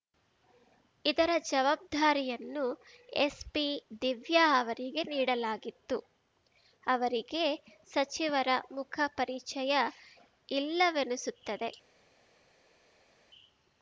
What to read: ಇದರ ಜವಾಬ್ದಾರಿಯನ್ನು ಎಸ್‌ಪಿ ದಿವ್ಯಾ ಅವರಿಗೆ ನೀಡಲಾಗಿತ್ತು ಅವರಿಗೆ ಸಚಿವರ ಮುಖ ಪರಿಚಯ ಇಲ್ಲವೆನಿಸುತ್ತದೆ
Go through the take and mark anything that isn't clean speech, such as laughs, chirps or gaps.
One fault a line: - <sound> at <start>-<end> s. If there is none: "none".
none